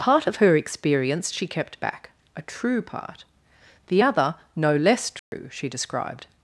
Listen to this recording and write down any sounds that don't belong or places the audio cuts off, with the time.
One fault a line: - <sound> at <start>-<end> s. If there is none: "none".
- dropout at 5.2-5.3 s